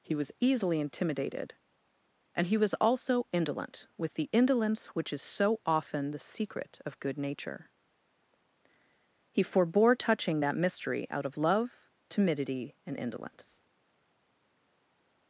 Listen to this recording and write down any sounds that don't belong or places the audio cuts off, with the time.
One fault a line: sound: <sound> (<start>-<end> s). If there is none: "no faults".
no faults